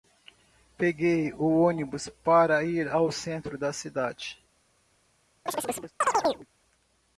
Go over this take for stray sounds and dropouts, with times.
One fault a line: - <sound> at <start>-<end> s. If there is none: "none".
- chirp at 5.5-6.5 s